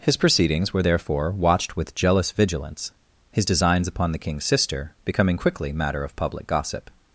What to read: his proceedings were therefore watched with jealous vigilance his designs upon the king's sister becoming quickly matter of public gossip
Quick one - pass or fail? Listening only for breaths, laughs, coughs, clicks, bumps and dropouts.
pass